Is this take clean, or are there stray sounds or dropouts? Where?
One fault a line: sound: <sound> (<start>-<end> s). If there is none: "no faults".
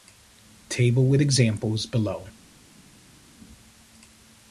no faults